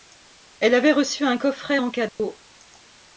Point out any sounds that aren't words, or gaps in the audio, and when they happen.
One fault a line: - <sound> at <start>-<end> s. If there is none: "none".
- dropout at 2.1-2.2 s